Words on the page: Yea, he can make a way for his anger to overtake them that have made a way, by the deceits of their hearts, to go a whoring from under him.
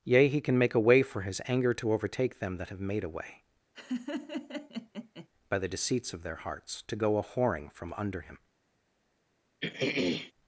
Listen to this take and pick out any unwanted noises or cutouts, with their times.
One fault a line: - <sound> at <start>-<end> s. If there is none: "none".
- laugh at 3.7-5.3 s
- throat clearing at 9.6-10.3 s